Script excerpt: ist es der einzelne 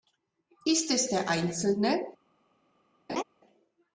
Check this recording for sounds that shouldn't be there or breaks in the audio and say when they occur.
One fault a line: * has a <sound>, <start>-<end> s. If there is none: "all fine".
* has a laugh, 3.1-3.2 s